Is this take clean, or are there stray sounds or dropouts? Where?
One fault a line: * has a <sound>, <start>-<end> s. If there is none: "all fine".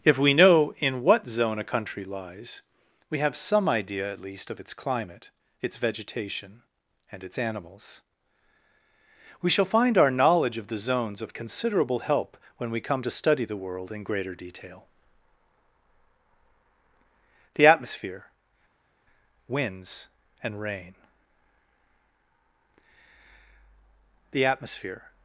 all fine